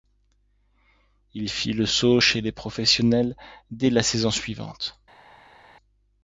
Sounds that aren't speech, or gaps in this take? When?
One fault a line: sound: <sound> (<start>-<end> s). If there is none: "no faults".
no faults